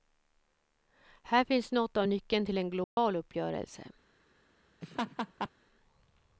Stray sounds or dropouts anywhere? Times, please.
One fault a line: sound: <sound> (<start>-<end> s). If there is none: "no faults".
sound: dropout (2.8-3.0 s)
sound: laugh (4.8-5.5 s)